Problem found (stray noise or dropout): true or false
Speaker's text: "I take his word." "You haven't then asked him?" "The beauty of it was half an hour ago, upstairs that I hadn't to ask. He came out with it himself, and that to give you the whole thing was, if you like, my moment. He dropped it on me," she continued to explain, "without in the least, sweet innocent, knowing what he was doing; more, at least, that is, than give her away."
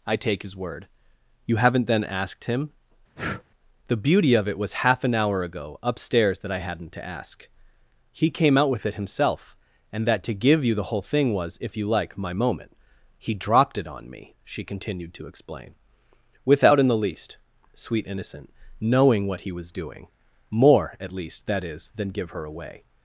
true